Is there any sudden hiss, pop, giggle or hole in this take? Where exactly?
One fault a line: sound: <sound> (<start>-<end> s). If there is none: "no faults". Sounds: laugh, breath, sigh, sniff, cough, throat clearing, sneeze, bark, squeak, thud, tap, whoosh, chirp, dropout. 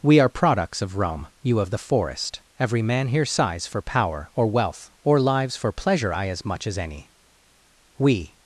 no faults